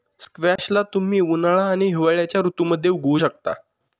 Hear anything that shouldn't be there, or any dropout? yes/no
yes